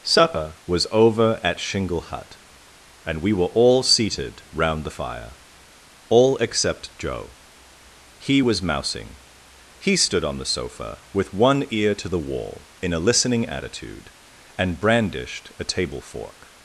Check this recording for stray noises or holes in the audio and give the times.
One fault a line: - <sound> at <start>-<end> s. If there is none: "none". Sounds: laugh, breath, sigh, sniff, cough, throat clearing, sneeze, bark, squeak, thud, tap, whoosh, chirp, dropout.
none